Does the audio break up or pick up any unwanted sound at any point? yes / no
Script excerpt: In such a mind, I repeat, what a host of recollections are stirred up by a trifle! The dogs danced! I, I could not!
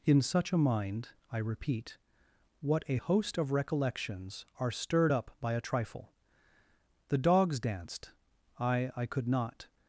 no